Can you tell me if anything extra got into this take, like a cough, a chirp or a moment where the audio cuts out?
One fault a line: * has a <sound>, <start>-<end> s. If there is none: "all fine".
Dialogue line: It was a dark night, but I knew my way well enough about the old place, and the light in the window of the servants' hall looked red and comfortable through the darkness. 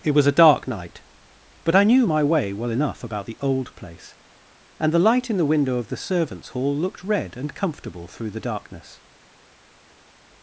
all fine